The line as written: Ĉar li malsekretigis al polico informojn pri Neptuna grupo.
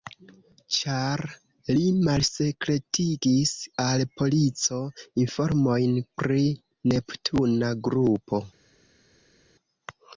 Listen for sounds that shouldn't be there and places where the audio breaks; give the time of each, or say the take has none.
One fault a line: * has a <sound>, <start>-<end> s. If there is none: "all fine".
all fine